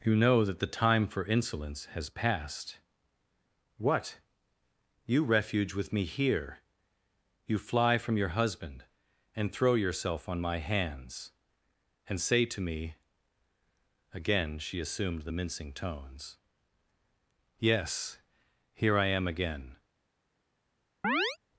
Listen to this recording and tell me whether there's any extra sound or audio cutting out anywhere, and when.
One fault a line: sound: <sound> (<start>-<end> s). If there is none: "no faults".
sound: chirp (21.0-21.4 s)